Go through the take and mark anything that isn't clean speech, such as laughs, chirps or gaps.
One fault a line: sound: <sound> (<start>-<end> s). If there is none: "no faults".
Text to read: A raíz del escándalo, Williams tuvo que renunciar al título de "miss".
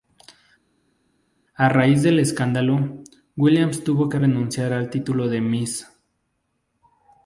no faults